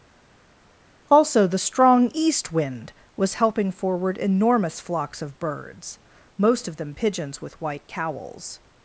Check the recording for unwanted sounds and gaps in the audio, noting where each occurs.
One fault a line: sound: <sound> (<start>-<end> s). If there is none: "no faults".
no faults